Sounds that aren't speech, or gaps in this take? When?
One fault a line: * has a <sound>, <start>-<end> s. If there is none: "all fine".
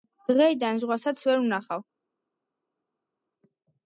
all fine